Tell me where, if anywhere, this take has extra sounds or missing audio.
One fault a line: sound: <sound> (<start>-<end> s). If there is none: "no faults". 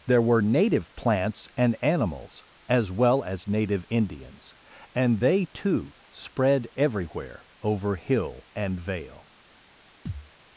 sound: thud (10.1-10.3 s)